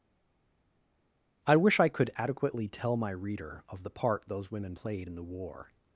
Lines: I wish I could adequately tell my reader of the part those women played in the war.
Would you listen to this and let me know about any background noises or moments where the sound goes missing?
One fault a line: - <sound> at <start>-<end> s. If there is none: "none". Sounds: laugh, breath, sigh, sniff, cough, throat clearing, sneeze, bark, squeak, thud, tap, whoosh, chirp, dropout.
none